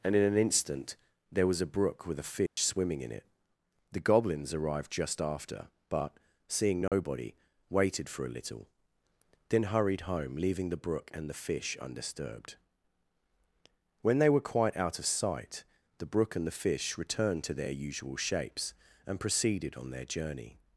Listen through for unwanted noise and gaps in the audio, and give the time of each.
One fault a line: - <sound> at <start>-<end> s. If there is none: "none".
- dropout at 2.5-2.6 s
- dropout at 6.9-6.9 s